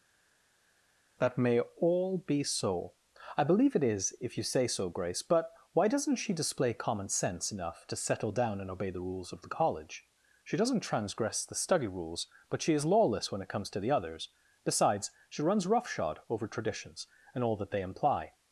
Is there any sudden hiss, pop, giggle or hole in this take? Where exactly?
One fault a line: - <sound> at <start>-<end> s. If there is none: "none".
none